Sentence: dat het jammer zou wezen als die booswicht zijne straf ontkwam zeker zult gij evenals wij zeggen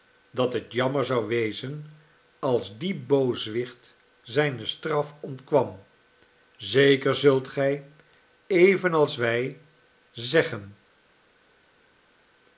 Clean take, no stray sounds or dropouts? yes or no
yes